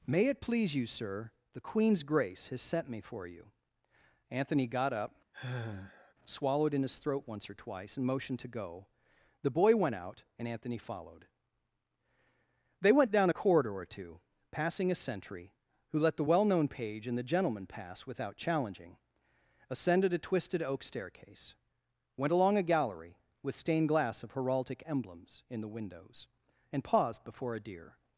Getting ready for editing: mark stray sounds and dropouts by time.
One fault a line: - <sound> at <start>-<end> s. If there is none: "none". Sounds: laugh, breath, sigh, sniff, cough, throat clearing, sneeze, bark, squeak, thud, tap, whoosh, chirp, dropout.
- sigh at 5.3-6.1 s